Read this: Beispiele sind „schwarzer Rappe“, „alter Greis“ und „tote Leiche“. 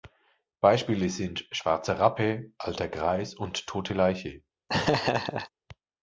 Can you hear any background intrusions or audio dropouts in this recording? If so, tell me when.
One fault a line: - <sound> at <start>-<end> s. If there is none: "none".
- laugh at 4.7-5.5 s